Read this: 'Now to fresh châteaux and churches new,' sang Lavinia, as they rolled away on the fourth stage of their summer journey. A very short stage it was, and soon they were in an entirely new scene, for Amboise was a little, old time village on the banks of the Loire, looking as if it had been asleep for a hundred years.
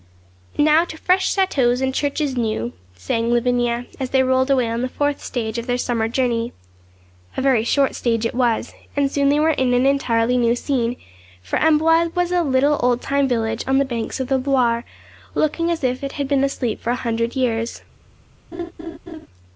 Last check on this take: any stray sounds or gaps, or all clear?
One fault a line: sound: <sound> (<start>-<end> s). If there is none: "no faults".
sound: laugh (18.5-19.3 s)